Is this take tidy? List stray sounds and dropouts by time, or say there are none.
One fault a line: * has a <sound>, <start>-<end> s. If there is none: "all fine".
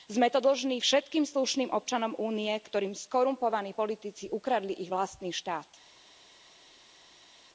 all fine